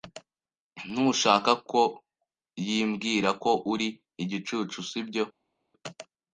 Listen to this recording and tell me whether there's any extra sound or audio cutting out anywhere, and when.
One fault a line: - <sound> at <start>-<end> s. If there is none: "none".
none